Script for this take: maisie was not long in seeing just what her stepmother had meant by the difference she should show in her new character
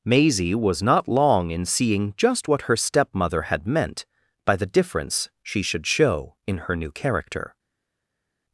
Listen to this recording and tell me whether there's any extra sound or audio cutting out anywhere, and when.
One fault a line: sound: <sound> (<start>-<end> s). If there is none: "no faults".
no faults